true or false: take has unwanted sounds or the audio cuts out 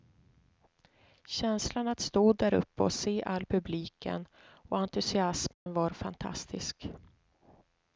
true